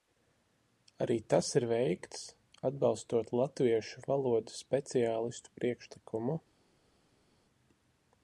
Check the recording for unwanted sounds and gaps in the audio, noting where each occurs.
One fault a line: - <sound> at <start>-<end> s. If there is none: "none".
none